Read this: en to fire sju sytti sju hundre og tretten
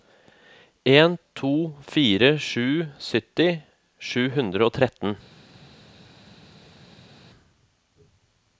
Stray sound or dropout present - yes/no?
no